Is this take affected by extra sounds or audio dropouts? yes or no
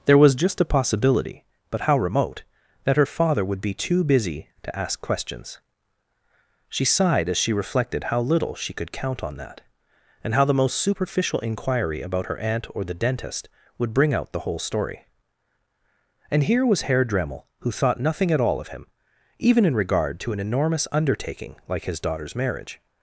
no